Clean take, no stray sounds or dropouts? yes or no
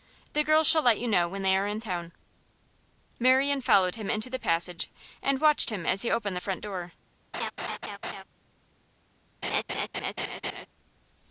no